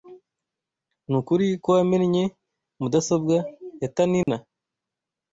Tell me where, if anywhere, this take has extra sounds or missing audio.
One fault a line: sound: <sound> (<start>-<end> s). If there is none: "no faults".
sound: dropout (4.2-4.3 s)